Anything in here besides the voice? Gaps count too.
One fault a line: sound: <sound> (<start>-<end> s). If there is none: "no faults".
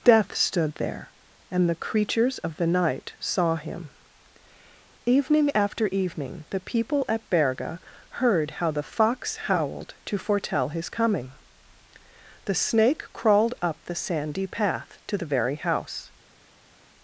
no faults